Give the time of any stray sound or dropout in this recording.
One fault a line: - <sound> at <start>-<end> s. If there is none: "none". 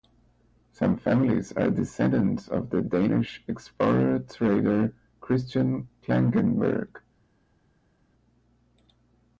none